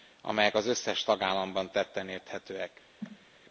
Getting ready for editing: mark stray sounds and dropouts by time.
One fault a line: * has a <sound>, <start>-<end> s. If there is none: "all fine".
* has a cough, 3.0-3.3 s